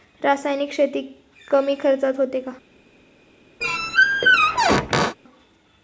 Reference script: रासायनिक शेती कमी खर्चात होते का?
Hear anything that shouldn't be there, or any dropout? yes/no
yes